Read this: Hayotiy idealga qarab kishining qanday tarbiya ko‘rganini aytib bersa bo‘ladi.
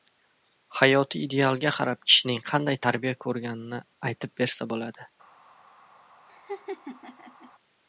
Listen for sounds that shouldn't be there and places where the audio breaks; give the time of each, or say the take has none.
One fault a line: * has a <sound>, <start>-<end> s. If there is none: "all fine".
* has a laugh, 6.3-7.5 s